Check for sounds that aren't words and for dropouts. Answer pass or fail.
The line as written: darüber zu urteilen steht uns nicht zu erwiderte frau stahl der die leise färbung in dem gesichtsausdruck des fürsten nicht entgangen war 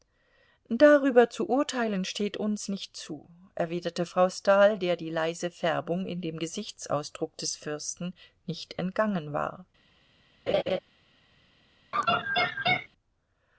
fail